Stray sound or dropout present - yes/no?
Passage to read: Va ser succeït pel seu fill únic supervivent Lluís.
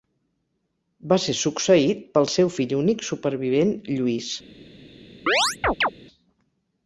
yes